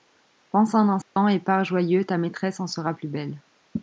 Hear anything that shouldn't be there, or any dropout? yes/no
yes